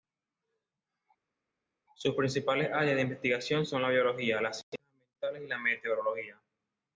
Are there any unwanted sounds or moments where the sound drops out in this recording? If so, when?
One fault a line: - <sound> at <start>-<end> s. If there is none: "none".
none